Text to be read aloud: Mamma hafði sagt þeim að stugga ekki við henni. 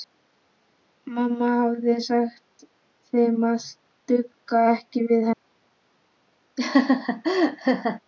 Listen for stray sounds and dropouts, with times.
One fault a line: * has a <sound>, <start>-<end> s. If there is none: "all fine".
* has a laugh, 6.6-8.0 s